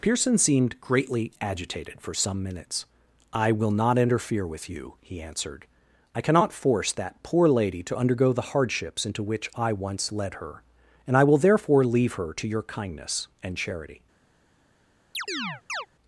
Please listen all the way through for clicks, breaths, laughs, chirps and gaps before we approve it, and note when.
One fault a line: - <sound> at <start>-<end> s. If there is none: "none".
- chirp at 15.1-15.9 s